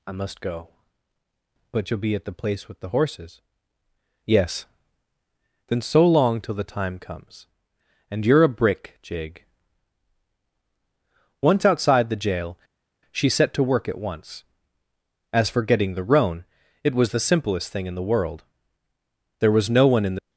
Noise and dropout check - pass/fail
pass